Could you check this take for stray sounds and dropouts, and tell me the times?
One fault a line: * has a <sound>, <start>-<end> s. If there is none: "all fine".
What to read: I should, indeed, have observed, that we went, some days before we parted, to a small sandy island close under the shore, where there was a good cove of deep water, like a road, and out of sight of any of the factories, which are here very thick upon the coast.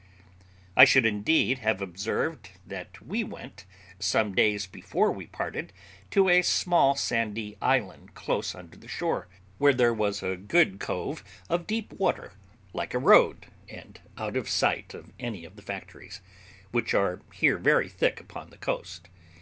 all fine